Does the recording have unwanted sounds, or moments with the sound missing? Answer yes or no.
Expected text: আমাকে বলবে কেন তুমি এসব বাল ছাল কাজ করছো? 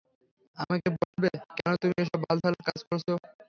yes